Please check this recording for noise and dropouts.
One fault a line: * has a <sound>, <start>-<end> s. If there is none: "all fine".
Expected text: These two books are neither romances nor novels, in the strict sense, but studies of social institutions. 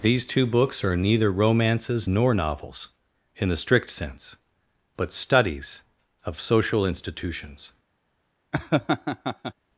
* has a laugh, 8.5-9.5 s